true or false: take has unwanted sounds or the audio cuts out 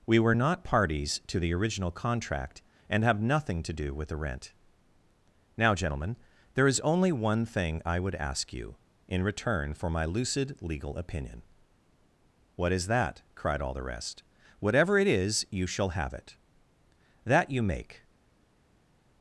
false